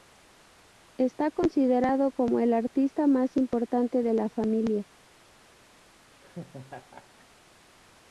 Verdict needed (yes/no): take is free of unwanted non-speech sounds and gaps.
no